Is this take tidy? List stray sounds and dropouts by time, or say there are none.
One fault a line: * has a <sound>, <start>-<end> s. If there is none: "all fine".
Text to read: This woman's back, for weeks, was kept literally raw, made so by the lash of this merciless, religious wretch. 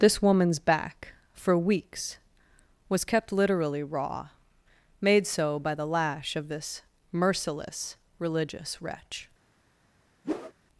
* has a whoosh, 10.2-10.5 s